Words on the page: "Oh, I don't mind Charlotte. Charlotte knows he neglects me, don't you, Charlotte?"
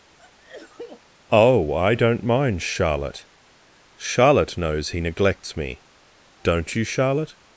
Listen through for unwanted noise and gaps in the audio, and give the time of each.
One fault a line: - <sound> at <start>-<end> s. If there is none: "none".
- sneeze at 0.2-1.0 s